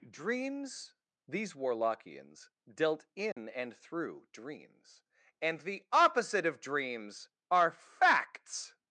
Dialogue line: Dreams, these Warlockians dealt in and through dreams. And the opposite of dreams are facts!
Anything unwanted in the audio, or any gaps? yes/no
yes